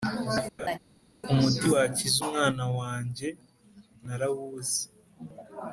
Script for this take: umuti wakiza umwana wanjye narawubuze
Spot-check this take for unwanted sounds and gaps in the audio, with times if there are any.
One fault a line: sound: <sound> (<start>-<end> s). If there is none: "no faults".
sound: laugh (0.6-0.8 s)